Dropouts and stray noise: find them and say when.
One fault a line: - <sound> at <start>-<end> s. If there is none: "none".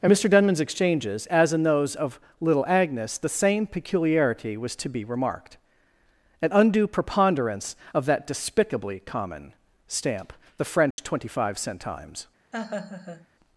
- dropout at 10.9-11.0 s
- laugh at 12.5-13.3 s